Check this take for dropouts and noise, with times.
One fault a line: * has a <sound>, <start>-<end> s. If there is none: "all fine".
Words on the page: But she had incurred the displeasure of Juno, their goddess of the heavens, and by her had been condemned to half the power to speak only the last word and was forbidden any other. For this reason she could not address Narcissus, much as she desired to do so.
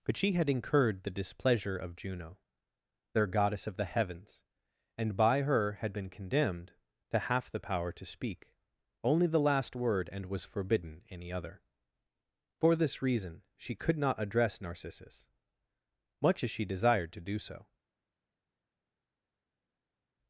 all fine